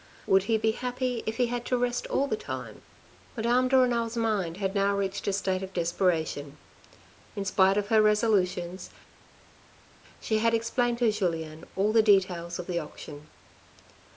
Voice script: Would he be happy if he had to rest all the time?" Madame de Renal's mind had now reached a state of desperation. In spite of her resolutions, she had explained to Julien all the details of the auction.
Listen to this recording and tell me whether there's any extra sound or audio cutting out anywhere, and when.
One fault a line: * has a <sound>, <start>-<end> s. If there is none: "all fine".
all fine